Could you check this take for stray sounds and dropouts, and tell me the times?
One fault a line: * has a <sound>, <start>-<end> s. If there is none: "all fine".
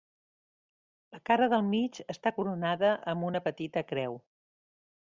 all fine